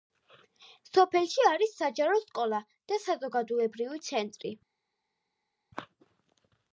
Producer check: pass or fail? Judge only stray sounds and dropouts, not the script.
pass